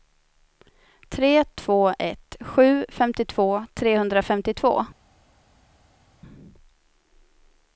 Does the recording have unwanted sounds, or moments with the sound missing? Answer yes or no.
no